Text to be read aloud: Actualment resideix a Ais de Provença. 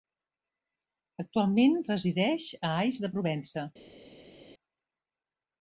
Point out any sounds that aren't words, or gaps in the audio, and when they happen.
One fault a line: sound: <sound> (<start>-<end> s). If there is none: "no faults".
no faults